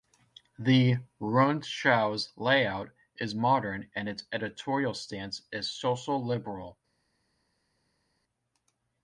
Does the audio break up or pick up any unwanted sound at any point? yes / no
no